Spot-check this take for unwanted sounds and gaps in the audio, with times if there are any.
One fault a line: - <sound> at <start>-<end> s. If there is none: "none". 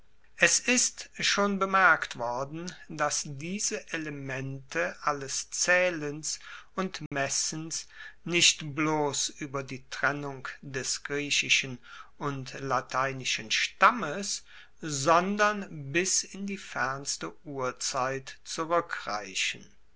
- dropout at 7.1-7.1 s